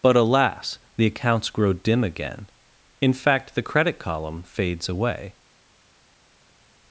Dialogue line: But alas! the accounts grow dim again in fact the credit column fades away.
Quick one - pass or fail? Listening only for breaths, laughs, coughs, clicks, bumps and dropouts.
pass